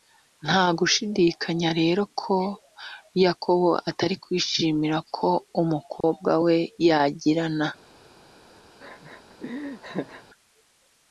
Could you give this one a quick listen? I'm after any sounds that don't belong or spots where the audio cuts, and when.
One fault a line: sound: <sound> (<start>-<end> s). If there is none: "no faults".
sound: dropout (6.0-6.0 s)
sound: laugh (8.8-10.2 s)